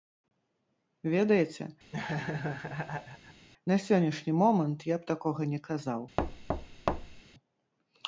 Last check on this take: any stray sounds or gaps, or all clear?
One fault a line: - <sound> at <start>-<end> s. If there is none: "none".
- laugh at 1.9-3.5 s
- thud at 6.2-7.2 s